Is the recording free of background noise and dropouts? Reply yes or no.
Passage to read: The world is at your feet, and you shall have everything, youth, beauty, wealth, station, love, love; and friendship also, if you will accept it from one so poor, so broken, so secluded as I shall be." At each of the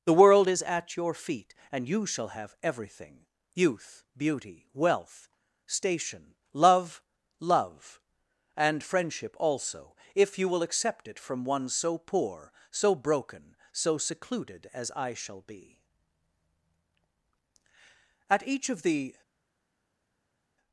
yes